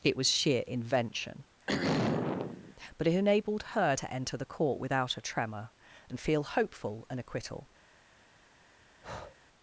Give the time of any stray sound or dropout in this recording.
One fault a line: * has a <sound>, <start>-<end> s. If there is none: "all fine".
* has a throat clearing, 1.7-2.8 s
* has a breath, 9.0-9.4 s